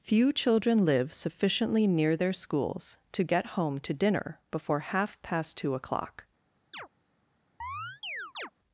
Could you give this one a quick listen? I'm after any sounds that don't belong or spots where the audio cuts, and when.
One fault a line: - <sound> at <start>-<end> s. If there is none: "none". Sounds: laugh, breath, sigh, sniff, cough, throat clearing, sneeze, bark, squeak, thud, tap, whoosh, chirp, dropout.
- chirp at 6.7-6.9 s
- chirp at 7.6-8.5 s